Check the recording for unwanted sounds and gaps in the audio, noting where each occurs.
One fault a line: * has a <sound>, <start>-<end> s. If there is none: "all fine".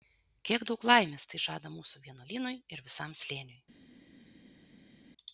all fine